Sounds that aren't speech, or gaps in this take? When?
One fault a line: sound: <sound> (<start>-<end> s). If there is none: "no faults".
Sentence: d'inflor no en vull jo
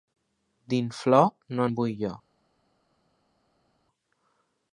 no faults